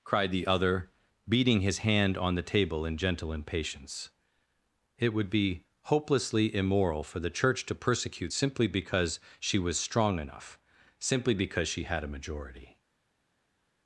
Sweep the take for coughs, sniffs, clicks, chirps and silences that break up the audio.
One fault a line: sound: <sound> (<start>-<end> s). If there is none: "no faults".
no faults